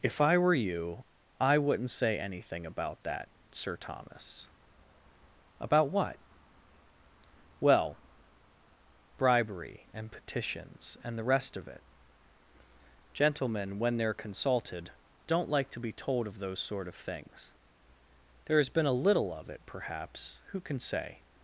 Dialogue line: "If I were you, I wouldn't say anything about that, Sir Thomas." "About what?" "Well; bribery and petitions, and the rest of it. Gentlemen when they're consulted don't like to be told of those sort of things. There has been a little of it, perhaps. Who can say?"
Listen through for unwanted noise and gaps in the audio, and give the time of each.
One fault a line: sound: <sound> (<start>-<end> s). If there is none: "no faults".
no faults